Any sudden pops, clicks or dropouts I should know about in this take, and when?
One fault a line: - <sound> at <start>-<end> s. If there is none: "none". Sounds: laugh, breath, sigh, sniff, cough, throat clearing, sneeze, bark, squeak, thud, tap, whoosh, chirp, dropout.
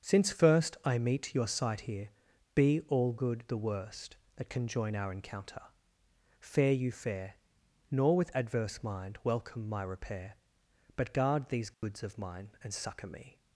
- dropout at 11.7-11.8 s